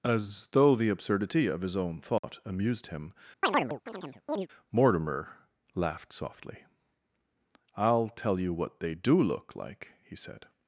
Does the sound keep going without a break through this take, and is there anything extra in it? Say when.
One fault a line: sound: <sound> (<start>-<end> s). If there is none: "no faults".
sound: dropout (2.2-2.2 s)
sound: chirp (3.4-4.5 s)